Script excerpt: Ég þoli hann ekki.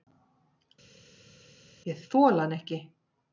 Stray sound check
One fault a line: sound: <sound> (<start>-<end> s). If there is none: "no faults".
no faults